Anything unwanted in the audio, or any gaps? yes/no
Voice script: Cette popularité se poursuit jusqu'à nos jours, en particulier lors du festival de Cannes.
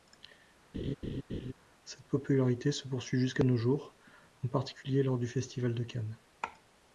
yes